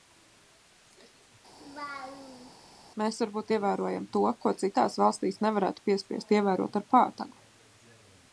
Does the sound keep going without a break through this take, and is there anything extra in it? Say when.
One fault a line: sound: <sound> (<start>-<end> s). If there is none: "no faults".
sound: laugh (1.6-2.5 s)